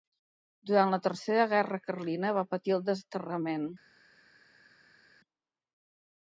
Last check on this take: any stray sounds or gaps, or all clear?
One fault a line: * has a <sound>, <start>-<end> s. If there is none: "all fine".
all fine